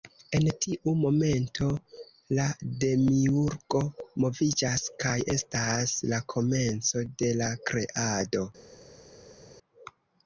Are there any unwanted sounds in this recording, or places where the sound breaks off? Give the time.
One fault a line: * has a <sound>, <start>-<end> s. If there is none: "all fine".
all fine